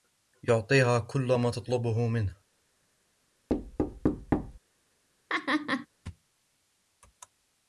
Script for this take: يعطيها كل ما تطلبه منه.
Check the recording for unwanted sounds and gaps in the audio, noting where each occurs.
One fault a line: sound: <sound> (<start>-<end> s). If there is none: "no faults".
sound: thud (3.5-4.6 s)
sound: laugh (5.3-5.9 s)